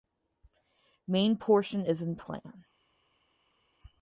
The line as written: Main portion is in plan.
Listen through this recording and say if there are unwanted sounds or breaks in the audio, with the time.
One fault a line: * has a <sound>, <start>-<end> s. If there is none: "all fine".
all fine